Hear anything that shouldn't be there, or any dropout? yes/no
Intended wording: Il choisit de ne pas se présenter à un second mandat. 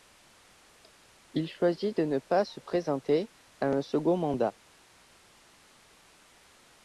no